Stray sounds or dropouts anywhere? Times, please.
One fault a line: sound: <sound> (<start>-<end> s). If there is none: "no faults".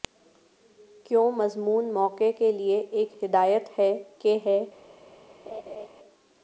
sound: laugh (5.5-5.9 s)